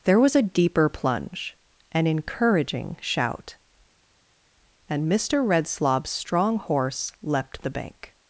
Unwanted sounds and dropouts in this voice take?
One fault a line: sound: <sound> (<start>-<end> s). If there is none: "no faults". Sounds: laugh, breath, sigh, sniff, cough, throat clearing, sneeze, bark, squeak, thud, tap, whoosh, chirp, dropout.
no faults